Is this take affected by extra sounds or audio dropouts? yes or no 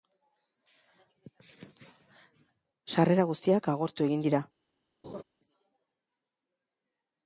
yes